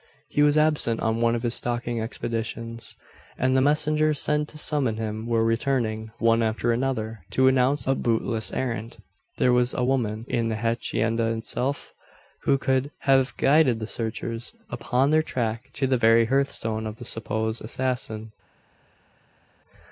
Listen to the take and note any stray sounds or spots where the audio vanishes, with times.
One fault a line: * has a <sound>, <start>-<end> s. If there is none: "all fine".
all fine